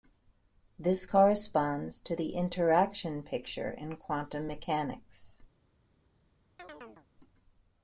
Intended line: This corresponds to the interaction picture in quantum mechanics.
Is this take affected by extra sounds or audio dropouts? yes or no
yes